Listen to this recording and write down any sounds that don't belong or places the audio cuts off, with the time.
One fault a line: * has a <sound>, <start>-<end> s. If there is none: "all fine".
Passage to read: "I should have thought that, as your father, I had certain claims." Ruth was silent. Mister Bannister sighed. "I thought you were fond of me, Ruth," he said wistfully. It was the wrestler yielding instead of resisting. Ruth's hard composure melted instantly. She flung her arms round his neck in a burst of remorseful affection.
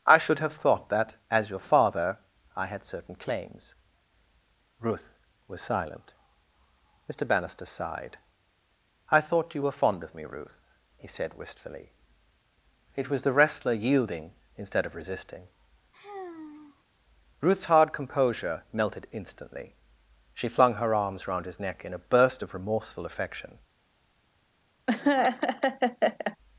* has a sigh, 15.9-16.8 s
* has a laugh, 24.9-26.4 s